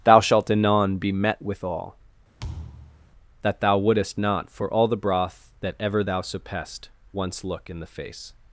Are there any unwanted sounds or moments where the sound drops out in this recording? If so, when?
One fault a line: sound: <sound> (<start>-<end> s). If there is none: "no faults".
sound: thud (2.4-3.1 s)